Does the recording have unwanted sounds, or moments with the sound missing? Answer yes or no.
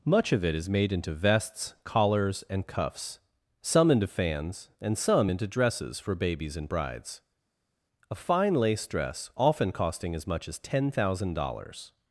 no